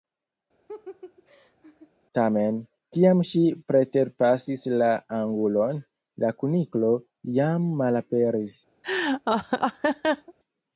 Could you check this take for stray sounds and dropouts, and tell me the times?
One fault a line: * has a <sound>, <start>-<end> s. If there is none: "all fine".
* has a laugh, 0.7-1.9 s
* has a laugh, 8.8-10.3 s